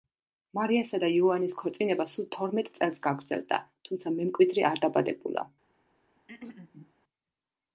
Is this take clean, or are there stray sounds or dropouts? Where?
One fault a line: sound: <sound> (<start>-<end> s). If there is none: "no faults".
sound: throat clearing (6.2-6.9 s)